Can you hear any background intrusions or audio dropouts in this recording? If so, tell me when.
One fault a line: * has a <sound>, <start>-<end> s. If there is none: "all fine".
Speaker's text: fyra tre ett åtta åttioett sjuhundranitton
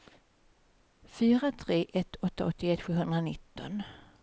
all fine